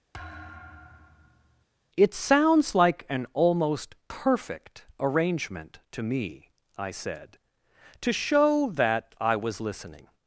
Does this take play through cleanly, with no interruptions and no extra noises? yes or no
no